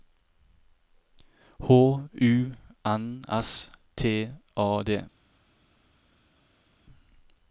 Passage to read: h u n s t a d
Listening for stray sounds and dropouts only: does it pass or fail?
pass